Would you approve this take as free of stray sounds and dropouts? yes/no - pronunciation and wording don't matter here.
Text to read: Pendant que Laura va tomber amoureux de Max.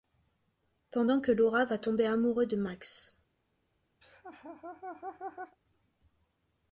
no